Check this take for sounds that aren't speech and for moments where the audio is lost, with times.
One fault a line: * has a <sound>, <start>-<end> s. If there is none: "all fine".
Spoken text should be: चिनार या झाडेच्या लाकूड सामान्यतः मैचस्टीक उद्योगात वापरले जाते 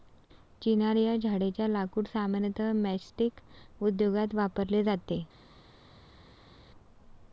all fine